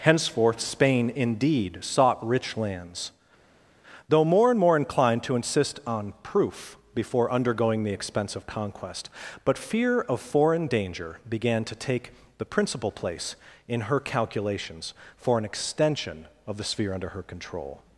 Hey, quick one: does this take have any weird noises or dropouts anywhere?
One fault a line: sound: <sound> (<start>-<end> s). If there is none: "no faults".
no faults